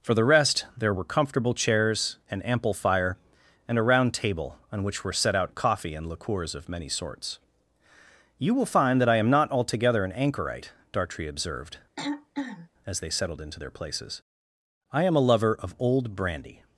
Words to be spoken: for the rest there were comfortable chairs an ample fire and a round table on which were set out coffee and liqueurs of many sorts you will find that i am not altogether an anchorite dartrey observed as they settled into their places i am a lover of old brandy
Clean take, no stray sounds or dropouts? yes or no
no